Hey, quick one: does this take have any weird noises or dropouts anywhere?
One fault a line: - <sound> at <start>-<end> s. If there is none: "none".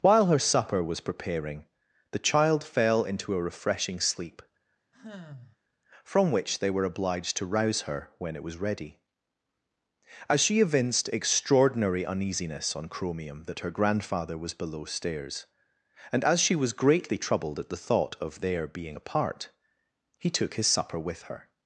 - sigh at 4.9-5.6 s